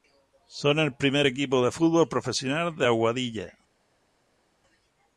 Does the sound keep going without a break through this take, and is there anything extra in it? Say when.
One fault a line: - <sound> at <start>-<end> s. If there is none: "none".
none